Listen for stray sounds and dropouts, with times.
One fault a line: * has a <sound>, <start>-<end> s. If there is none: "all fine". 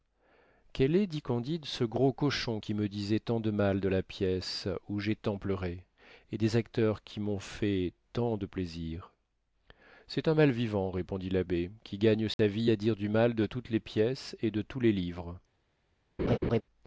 * has a dropout, 12.3-12.4 s
* has a laugh, 16.2-16.6 s